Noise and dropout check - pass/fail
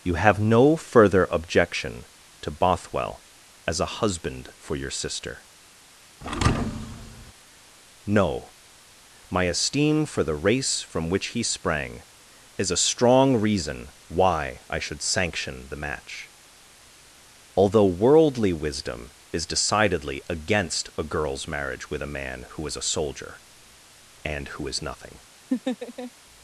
fail